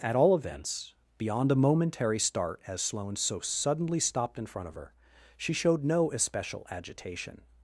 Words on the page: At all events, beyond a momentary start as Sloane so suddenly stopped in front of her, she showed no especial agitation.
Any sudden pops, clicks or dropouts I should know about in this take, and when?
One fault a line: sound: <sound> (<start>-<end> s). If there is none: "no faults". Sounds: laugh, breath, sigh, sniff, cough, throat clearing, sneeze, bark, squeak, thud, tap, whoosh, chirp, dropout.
no faults